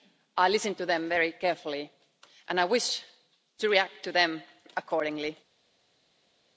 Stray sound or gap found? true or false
false